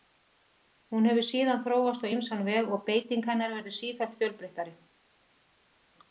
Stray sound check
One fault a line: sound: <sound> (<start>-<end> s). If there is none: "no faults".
no faults